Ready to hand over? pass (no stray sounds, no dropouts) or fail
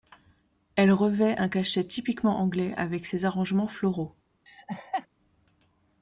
fail